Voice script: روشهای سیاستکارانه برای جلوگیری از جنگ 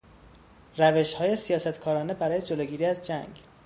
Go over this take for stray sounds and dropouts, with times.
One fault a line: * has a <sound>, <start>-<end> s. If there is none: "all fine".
all fine